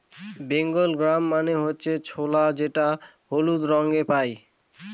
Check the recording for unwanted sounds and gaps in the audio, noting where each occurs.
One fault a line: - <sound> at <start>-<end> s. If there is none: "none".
none